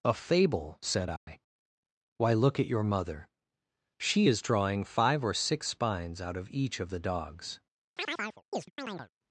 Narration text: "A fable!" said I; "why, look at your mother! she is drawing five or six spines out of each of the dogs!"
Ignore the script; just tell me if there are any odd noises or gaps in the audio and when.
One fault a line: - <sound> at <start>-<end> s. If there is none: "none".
- dropout at 1.2-1.3 s
- chirp at 8.0-9.1 s